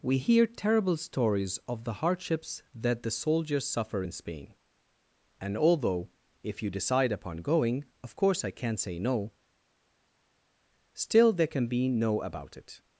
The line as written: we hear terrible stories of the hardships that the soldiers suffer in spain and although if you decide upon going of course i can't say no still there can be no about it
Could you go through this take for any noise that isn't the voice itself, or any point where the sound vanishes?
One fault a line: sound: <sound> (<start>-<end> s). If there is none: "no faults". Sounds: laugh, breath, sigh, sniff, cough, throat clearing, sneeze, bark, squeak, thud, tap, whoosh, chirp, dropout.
no faults